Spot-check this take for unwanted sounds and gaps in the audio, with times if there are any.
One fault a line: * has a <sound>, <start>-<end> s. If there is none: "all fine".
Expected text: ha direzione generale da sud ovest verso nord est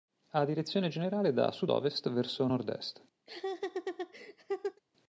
* has a laugh, 3.2-4.8 s